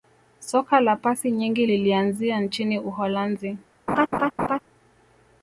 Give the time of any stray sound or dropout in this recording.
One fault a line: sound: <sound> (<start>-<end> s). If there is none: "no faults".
sound: laugh (3.9-4.6 s)